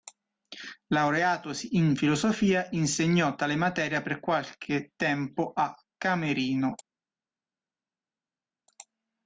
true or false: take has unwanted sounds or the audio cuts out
false